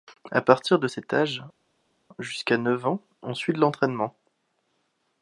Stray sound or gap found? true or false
false